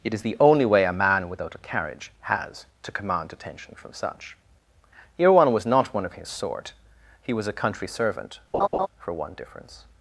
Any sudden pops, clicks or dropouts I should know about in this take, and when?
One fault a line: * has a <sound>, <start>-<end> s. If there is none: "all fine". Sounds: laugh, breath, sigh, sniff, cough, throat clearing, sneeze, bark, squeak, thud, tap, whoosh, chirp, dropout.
* has a laugh, 8.5-8.9 s